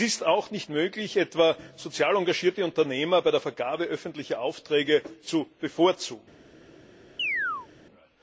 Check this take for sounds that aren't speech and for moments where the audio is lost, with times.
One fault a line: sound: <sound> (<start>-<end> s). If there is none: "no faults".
sound: chirp (7.2-7.7 s)